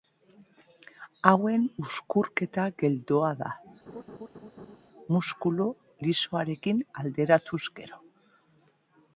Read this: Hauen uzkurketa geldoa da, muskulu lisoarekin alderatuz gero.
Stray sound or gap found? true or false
true